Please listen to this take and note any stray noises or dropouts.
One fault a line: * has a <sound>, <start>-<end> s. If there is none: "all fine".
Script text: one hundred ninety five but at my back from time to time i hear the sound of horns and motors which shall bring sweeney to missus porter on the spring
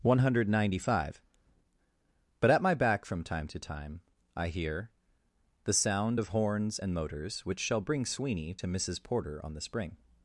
all fine